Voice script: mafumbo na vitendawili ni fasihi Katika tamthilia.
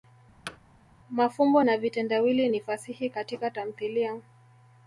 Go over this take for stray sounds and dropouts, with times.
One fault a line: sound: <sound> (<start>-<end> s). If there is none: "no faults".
sound: thud (0.5-0.6 s)